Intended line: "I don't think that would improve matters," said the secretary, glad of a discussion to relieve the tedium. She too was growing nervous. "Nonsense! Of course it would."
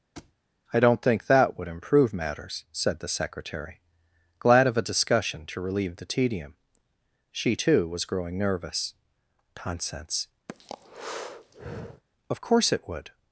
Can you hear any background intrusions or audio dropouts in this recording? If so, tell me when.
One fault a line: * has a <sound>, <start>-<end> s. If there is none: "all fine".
* has a thud, 0.2-0.3 s
* has a breath, 10.5-12.0 s